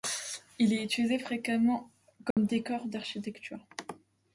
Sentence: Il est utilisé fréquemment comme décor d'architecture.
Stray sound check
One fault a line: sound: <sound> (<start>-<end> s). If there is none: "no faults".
sound: dropout (2.3-2.4 s)